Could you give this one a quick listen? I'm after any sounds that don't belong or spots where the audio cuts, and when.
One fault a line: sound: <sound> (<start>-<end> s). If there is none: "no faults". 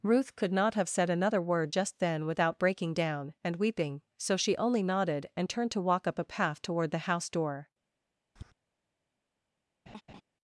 sound: tap (8.4-8.5 s)
sound: laugh (9.9-10.2 s)